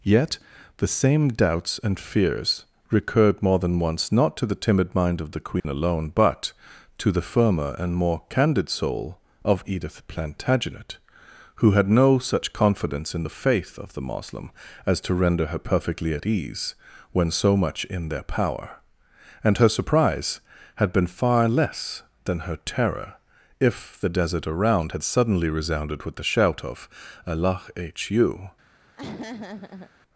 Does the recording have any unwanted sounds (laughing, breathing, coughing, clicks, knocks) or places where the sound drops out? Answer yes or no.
yes